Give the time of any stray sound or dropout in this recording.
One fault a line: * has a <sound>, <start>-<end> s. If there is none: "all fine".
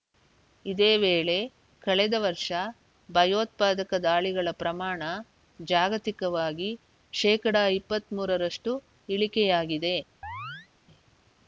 * has a chirp, 10.2-10.7 s